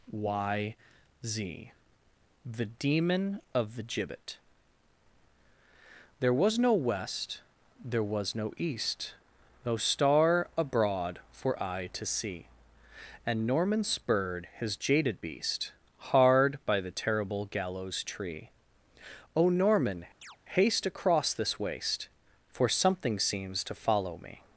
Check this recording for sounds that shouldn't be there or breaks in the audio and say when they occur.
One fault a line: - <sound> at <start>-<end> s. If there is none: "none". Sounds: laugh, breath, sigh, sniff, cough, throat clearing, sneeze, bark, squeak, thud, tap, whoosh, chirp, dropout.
- chirp at 20.2-20.4 s